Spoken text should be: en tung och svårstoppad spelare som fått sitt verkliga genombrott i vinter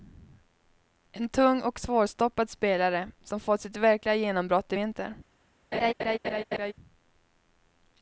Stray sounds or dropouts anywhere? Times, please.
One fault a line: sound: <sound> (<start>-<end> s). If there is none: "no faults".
sound: laugh (5.7-6.7 s)